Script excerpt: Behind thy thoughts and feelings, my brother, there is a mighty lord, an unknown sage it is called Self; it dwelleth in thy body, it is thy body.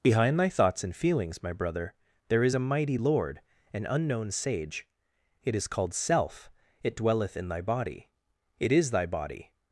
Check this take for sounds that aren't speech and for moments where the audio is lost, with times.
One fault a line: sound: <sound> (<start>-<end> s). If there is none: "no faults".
no faults